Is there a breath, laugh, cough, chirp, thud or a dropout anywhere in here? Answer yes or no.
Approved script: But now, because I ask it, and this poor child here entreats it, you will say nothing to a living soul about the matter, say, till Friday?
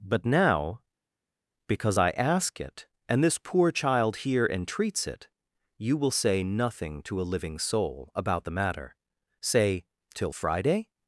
no